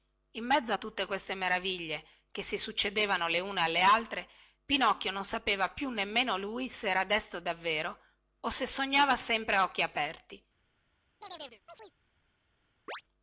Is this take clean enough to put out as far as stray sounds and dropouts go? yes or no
no